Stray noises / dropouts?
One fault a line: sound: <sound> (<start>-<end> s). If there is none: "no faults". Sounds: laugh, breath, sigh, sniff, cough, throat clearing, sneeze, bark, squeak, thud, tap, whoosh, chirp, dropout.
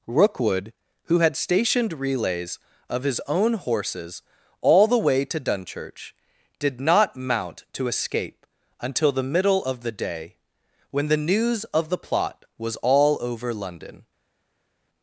no faults